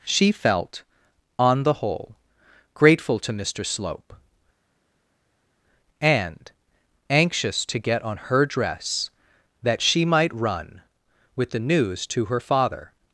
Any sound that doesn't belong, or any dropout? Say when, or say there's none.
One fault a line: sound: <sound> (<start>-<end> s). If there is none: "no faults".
no faults